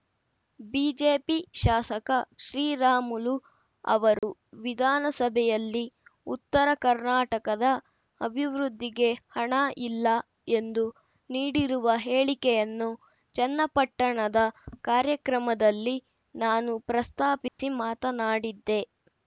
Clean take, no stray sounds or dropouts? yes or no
no